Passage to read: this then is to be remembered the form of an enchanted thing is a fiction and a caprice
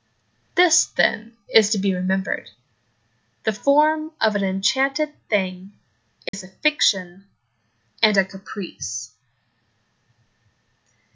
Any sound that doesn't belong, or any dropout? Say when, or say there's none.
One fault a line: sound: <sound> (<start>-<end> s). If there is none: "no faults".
sound: dropout (6.3-6.3 s)